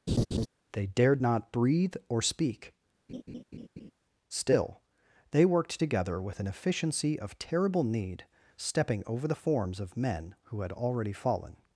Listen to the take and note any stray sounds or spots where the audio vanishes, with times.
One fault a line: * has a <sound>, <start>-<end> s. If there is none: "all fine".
* has a laugh, 0.1-0.5 s
* has a laugh, 3.1-3.9 s